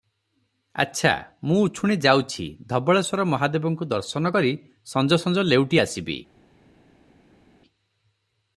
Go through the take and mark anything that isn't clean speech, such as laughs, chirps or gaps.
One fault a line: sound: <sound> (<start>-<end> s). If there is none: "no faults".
no faults